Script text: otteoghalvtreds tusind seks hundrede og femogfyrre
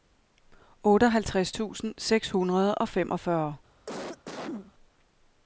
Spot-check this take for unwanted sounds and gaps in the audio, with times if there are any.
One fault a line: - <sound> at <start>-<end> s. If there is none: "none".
- cough at 3.9-4.7 s